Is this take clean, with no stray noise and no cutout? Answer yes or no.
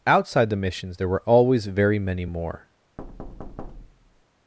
no